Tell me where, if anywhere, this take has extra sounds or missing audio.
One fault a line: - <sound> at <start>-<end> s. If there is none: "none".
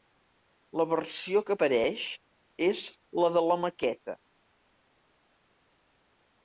none